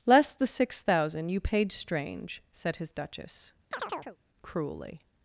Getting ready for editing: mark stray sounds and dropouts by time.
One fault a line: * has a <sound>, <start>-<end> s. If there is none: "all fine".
* has a chirp, 3.7-4.2 s